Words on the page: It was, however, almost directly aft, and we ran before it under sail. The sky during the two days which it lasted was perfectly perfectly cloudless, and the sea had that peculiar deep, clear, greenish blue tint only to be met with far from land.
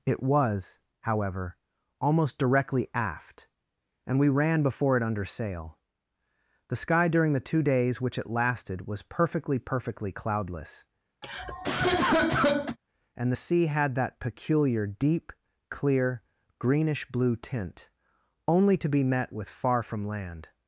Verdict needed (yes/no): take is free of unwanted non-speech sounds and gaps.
no